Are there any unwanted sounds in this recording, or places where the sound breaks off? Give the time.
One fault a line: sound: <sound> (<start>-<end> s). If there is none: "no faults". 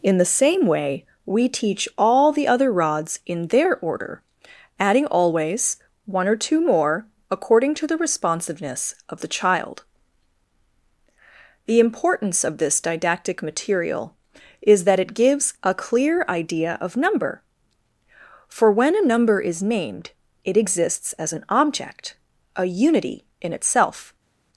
no faults